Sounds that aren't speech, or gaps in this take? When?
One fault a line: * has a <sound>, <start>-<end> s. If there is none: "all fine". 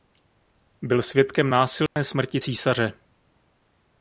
* has a dropout, 1.9-2.0 s